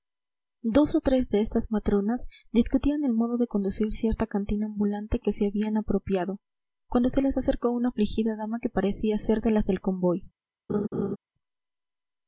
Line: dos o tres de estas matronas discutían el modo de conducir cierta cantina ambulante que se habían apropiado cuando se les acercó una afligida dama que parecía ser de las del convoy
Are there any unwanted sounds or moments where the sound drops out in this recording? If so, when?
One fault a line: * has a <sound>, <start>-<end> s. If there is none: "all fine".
* has a laugh, 10.7-11.2 s